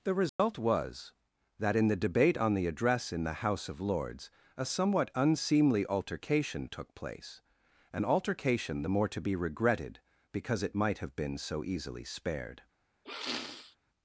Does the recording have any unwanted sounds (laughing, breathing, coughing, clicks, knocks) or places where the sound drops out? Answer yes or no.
yes